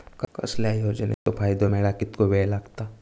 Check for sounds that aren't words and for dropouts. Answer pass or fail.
fail